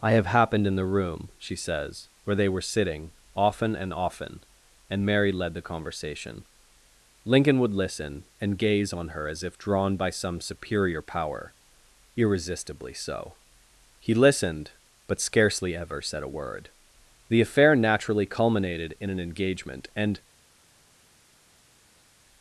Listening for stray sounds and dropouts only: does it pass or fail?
pass